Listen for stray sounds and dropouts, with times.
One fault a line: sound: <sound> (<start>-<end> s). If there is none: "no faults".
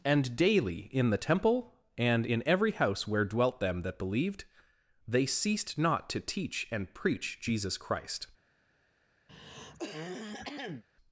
sound: throat clearing (9.3-10.8 s)